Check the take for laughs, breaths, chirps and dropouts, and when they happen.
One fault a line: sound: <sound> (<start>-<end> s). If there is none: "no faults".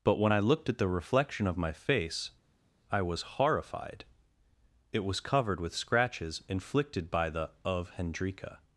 no faults